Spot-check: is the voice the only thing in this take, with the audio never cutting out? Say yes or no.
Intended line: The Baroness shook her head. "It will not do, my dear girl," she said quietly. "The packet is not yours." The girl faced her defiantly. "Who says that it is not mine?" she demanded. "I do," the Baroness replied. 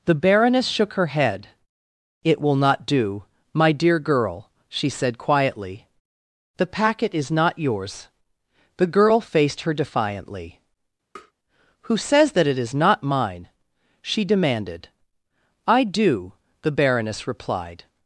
no